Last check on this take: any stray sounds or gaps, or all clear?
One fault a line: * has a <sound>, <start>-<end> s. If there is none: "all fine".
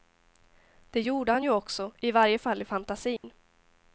* has a dropout, 3.2-3.2 s